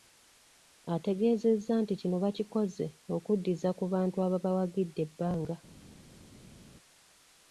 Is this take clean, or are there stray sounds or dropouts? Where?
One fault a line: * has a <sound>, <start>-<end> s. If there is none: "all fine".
all fine